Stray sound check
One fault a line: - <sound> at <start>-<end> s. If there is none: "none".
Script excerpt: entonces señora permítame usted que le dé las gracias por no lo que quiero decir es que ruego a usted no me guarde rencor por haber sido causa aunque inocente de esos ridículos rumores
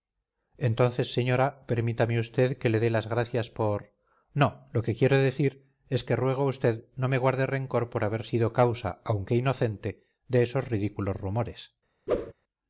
- whoosh at 12.1-12.3 s